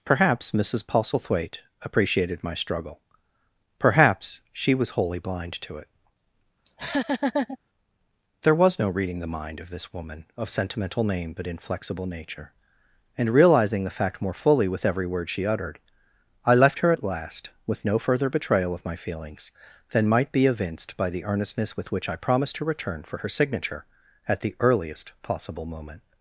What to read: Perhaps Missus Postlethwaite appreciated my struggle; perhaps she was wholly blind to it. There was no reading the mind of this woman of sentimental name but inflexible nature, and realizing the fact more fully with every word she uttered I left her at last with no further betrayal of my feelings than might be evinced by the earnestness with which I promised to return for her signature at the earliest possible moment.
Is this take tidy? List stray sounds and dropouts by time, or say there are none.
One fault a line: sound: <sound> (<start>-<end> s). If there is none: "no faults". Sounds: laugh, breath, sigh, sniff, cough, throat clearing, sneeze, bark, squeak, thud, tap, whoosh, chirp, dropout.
sound: laugh (6.7-7.6 s)